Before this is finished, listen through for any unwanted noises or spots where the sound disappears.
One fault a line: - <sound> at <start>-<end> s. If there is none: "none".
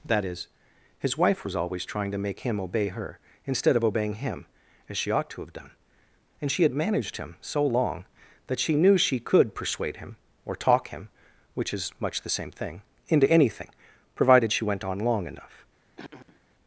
- throat clearing at 16.0-16.4 s